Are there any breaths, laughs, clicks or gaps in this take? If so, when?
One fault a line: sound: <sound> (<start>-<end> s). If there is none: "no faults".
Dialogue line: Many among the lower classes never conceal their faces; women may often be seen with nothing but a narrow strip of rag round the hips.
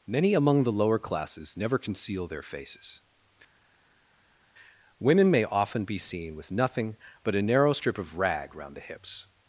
no faults